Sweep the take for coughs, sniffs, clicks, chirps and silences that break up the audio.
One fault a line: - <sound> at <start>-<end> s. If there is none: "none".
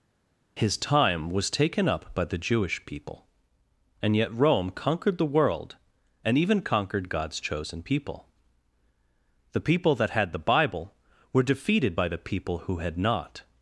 none